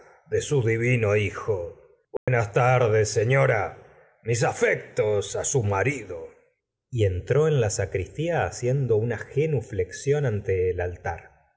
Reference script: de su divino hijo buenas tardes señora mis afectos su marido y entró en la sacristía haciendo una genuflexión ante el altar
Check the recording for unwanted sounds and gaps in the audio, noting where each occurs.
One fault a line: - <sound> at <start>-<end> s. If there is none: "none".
- dropout at 2.2-2.3 s